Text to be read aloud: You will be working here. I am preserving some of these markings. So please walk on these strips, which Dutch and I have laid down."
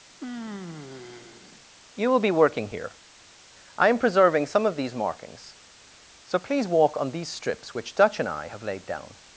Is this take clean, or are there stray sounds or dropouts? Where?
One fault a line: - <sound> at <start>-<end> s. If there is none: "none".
- sigh at 0.1-1.7 s